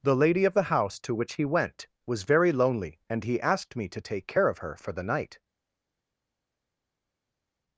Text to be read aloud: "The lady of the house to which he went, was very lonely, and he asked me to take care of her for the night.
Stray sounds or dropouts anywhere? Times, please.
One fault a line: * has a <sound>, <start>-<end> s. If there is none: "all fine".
all fine